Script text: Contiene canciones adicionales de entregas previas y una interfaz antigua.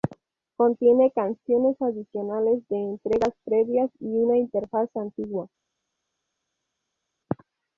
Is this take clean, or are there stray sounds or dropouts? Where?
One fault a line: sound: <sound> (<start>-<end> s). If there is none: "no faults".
no faults